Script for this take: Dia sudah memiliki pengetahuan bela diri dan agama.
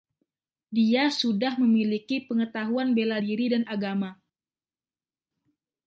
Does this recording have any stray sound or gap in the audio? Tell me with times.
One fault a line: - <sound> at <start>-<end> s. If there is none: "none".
none